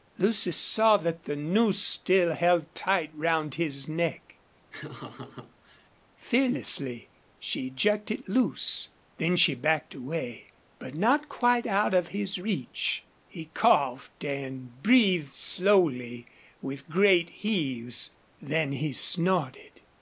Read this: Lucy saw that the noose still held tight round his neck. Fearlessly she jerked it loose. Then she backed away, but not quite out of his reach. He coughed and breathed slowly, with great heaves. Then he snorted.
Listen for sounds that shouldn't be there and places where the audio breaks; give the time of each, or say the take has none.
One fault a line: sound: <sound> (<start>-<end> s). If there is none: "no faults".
sound: laugh (4.7-5.9 s)